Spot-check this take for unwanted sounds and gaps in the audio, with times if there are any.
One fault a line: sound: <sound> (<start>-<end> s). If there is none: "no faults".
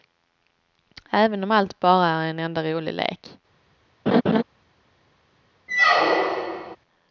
sound: laugh (4.1-4.4 s)
sound: squeak (5.7-6.8 s)